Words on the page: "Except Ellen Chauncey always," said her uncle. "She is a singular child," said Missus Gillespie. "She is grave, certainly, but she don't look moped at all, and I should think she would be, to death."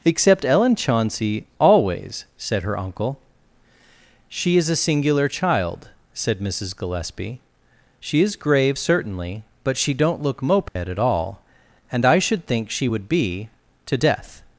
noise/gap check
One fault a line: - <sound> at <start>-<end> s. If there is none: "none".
- dropout at 10.7-10.8 s